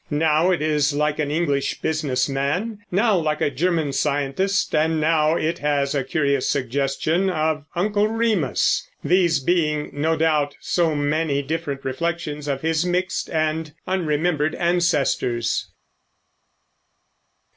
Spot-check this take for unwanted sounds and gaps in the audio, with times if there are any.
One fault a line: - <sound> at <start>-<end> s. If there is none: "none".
none